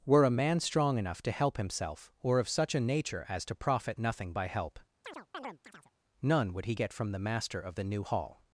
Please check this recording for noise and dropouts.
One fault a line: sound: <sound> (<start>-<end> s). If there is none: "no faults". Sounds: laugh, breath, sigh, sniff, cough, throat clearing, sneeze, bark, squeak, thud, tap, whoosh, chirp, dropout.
sound: chirp (5.0-5.9 s)